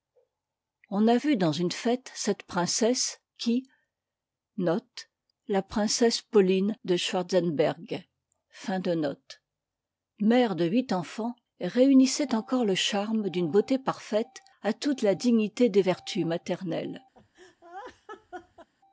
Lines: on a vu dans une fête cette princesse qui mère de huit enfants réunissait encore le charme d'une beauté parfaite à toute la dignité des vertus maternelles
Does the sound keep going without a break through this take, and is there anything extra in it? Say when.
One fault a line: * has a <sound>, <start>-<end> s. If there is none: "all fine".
* has a laugh, 17.1-18.7 s